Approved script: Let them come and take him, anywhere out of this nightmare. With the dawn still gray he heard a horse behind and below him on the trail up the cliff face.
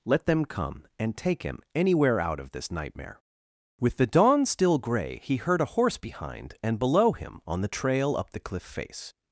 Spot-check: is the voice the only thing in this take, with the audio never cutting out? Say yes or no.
yes